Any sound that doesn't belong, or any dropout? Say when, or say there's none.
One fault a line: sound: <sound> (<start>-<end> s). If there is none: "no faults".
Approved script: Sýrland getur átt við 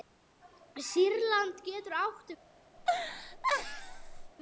sound: laugh (2.8-4.3 s)